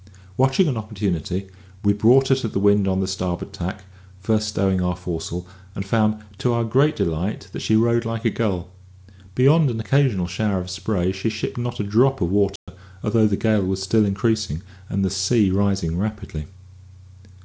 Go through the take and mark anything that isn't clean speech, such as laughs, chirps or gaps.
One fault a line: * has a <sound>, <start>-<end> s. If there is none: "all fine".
* has a dropout, 12.6-12.7 s